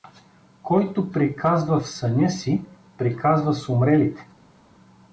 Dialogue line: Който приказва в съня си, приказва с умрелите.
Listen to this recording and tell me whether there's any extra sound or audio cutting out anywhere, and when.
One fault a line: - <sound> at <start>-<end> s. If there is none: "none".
none